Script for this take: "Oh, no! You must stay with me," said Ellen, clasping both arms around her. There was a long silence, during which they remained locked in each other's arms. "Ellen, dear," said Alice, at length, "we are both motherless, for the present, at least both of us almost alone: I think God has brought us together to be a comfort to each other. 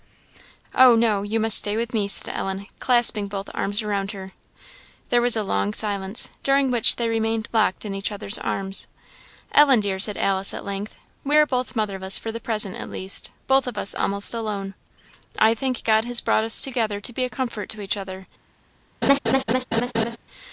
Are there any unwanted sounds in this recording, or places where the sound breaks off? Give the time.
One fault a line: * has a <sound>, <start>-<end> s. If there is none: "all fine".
* has a laugh, 19.0-20.2 s